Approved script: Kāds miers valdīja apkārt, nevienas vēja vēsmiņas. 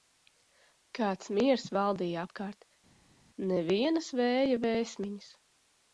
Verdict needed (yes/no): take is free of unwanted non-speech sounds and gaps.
yes